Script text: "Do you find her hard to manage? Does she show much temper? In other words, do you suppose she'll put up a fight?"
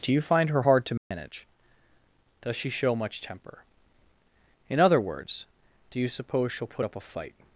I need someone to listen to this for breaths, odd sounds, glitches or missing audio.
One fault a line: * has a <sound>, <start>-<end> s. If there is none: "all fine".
* has a dropout, 1.0-1.1 s